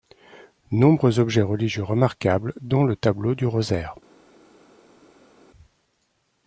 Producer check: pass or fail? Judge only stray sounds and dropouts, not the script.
pass